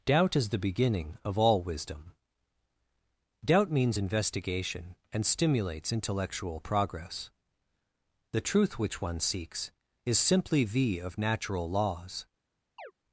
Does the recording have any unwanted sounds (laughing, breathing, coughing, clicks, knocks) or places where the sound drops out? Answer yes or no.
yes